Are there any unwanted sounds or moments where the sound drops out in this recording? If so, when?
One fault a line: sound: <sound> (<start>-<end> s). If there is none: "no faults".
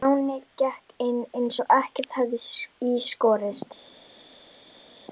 no faults